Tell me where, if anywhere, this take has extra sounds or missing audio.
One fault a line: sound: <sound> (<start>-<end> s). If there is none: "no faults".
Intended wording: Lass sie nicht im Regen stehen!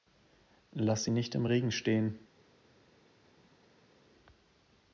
no faults